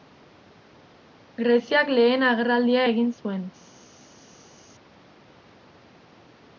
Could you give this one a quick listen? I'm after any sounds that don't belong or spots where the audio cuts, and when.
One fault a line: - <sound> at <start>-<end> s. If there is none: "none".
none